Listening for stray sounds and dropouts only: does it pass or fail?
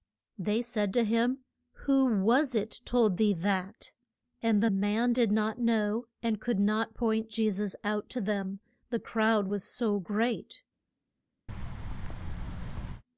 fail